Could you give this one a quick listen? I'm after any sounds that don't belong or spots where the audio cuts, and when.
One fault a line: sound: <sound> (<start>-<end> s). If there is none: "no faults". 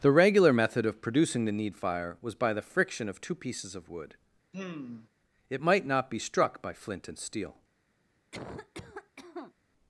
sound: sigh (4.5-5.1 s)
sound: cough (8.3-9.5 s)